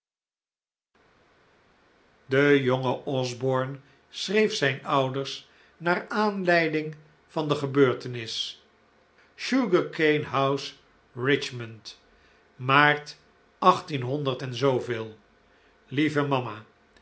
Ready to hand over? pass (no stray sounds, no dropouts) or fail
pass